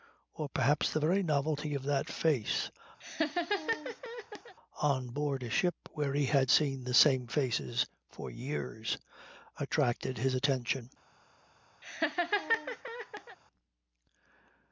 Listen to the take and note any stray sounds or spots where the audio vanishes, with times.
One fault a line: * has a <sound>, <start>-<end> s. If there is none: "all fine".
* has a laugh, 3.0-4.6 s
* has a laugh, 11.8-13.4 s